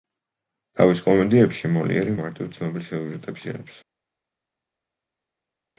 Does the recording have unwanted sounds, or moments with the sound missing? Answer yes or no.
no